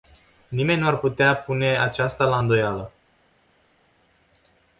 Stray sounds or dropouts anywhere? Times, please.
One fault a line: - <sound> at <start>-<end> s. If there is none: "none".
none